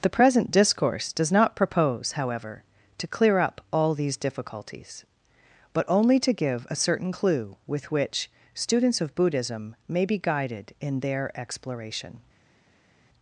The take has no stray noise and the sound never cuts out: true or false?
true